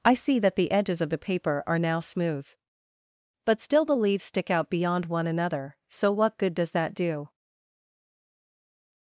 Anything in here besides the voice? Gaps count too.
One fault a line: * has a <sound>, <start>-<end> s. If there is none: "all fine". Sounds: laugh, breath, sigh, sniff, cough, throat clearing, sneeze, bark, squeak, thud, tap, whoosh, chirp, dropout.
all fine